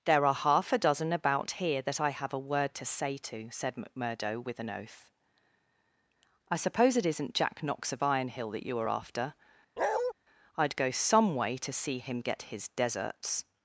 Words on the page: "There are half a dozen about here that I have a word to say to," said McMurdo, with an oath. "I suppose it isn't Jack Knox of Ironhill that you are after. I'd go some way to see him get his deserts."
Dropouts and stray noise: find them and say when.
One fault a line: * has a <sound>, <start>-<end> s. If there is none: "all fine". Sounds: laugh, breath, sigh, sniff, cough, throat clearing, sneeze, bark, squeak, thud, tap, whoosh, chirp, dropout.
* has a bark, 9.8-10.1 s